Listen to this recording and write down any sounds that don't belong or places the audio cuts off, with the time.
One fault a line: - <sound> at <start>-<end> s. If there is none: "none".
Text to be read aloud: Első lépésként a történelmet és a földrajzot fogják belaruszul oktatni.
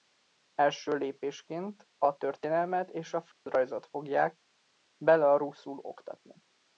- dropout at 3.3-3.5 s